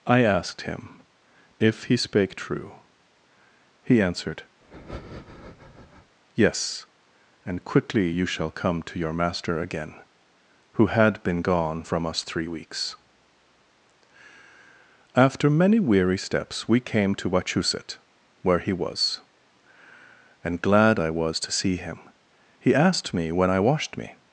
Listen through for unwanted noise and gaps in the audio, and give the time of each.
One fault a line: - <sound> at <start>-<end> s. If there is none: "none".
- breath at 4.6-6.2 s